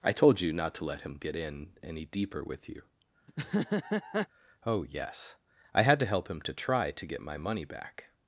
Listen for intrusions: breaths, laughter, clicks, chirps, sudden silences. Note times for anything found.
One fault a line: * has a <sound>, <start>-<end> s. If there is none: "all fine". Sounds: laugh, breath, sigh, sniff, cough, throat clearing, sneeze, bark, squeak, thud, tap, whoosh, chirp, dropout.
* has a laugh, 3.3-4.3 s